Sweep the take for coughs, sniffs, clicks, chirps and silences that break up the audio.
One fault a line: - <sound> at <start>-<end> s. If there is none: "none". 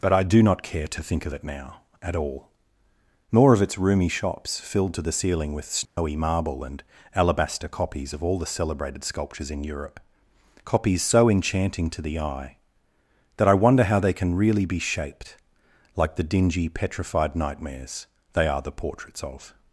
- dropout at 5.8-6.0 s